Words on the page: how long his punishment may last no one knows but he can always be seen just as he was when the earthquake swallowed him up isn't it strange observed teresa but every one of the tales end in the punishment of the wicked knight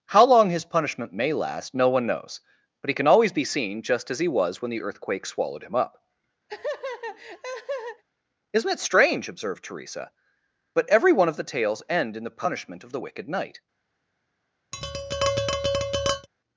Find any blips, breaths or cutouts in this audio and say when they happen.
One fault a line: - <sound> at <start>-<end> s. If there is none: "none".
- laugh at 6.5-8.0 s
- tap at 14.7-16.3 s